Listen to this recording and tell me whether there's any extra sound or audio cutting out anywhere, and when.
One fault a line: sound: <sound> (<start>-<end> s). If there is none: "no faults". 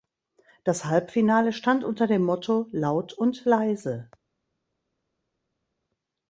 no faults